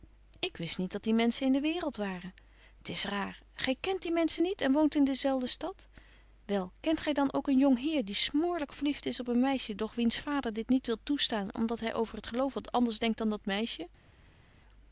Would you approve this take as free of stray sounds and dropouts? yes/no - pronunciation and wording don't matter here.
yes